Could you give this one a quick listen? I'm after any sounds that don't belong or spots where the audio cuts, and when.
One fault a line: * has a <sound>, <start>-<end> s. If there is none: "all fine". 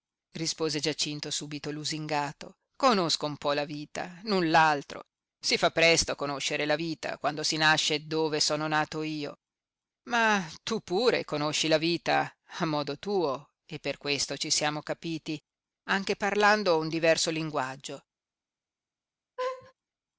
* has a laugh, 19.4-19.7 s